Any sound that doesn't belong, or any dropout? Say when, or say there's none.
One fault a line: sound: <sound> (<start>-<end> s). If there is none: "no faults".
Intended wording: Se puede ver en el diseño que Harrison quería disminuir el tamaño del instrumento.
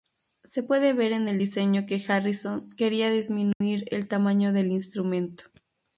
sound: dropout (3.5-3.6 s)